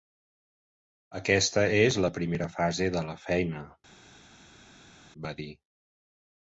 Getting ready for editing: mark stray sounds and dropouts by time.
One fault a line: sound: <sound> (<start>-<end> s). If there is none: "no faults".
no faults